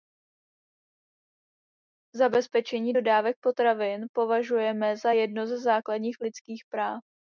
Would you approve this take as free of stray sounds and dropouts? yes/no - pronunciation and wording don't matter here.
yes